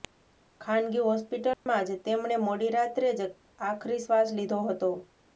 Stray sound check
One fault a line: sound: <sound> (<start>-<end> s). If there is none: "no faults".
sound: dropout (1.5-1.7 s)